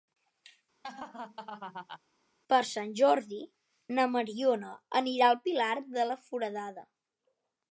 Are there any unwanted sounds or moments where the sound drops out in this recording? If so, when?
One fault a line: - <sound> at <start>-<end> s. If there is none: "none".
- laugh at 0.8-2.0 s